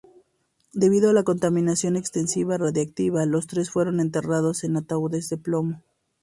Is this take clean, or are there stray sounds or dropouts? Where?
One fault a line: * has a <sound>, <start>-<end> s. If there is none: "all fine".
all fine